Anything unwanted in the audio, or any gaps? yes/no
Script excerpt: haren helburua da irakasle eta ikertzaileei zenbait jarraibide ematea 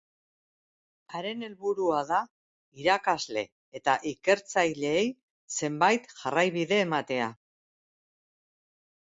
no